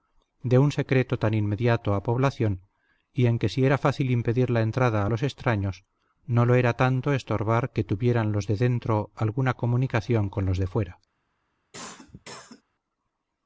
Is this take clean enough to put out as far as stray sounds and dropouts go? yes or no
no